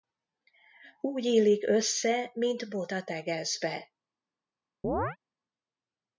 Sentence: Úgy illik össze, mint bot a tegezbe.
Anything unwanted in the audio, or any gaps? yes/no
yes